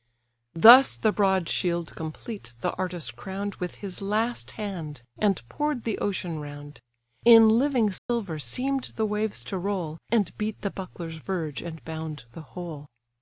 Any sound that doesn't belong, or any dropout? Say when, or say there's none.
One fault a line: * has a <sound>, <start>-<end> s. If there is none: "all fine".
* has a dropout, 8.0-8.1 s